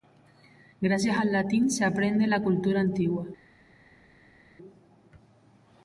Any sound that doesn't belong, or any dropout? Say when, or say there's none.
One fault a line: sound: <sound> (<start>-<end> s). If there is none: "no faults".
no faults